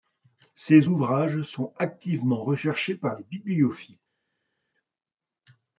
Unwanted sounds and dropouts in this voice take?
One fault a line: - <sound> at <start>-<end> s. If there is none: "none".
none